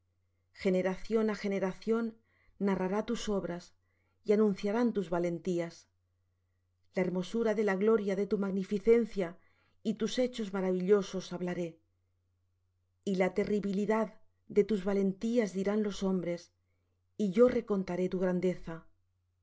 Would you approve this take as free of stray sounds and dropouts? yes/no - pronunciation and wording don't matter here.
yes